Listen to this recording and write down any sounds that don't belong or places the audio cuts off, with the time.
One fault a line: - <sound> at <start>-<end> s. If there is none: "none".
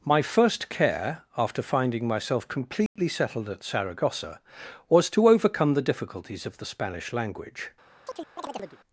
- dropout at 2.9-3.0 s
- chirp at 8.1-8.8 s